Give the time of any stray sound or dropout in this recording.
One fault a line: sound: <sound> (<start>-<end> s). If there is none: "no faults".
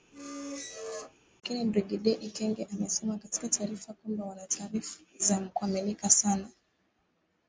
sound: squeak (0.1-1.2 s)